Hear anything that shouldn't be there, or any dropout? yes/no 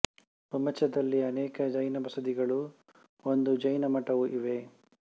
no